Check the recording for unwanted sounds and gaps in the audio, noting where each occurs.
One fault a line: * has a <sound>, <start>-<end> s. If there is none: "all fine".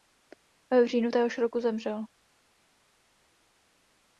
all fine